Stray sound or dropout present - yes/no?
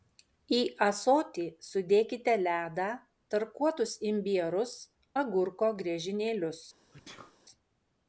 yes